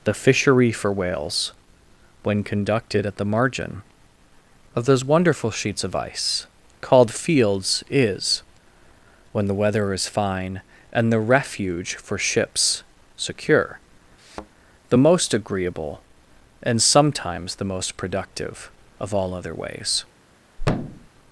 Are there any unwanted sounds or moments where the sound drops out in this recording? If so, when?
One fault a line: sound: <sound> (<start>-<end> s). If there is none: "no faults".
sound: thud (14.2-14.5 s)
sound: thud (20.6-21.1 s)